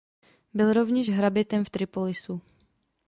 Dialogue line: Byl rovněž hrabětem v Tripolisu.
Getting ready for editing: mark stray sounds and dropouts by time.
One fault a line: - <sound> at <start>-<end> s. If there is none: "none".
none